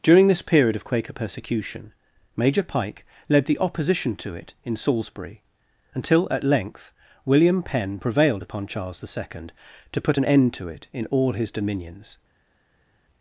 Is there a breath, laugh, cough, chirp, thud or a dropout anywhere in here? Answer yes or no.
no